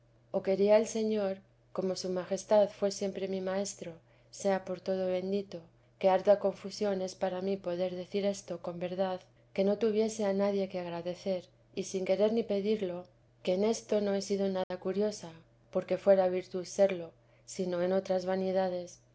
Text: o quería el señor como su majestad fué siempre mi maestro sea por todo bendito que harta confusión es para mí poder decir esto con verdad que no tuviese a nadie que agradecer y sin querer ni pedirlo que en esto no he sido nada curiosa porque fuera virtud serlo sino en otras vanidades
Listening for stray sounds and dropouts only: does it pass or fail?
fail